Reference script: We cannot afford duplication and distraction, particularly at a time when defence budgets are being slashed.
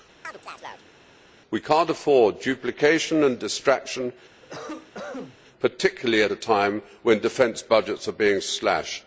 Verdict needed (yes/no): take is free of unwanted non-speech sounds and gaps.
no